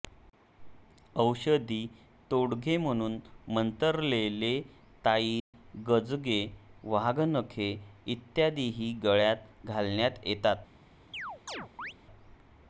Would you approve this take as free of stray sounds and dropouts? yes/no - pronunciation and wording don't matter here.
no